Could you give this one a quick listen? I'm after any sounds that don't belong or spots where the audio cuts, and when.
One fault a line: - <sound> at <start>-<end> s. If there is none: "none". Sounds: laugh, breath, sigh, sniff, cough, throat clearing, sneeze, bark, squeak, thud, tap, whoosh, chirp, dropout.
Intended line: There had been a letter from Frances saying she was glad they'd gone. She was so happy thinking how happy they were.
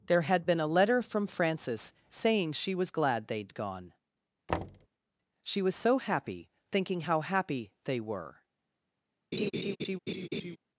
- thud at 4.5-4.9 s
- laugh at 9.3-10.6 s